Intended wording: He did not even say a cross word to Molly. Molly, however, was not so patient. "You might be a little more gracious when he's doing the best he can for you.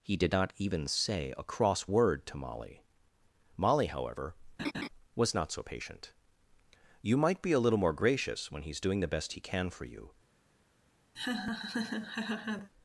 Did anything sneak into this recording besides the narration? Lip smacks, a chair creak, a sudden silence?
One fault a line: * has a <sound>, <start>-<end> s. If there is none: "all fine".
* has a laugh, 4.6-4.9 s
* has a laugh, 11.1-12.7 s